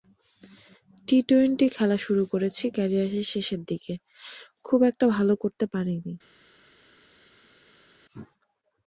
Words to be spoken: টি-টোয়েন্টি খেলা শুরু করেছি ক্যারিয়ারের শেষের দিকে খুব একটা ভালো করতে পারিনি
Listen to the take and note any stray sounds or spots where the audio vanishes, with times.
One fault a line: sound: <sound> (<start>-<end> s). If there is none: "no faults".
no faults